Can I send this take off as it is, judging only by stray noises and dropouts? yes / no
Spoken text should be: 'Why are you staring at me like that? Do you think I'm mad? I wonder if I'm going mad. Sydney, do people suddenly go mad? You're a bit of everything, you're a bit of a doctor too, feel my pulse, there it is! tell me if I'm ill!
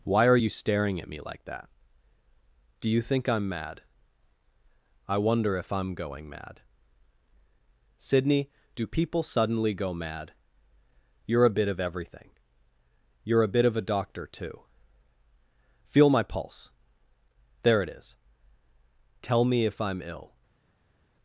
yes